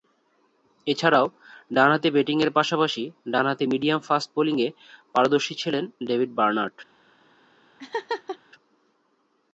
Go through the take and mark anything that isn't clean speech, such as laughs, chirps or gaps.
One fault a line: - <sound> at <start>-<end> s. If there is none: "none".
- laugh at 7.8-8.4 s